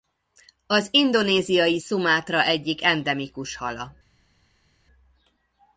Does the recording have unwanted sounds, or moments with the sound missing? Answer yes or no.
no